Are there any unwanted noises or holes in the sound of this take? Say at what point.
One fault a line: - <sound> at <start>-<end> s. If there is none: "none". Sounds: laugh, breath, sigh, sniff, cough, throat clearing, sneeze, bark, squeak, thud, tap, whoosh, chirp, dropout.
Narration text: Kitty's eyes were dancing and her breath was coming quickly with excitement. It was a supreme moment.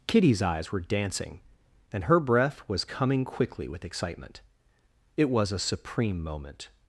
none